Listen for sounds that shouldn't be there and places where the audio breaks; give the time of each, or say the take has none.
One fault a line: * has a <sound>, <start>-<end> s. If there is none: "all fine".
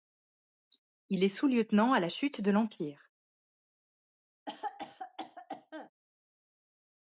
* has a cough, 4.5-5.9 s